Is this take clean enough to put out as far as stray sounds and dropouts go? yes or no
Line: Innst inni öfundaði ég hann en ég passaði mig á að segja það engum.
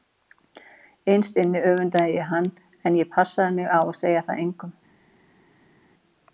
yes